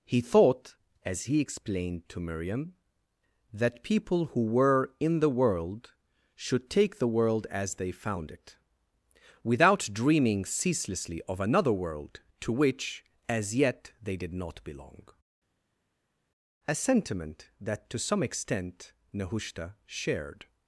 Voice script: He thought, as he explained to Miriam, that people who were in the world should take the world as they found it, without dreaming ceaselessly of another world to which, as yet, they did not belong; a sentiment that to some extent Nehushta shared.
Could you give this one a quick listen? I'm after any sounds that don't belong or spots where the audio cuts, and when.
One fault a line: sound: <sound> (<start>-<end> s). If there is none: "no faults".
no faults